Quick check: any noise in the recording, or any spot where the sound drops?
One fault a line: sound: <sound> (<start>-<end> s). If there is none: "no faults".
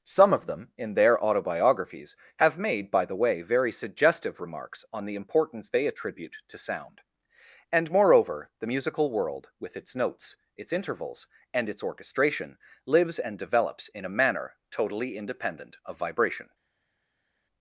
no faults